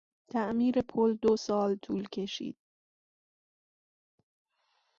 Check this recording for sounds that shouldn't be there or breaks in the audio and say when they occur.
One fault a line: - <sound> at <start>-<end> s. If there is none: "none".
none